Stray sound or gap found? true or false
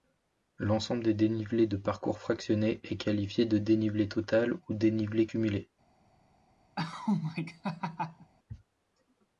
true